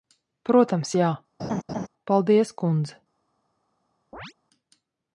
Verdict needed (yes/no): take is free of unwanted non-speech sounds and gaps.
no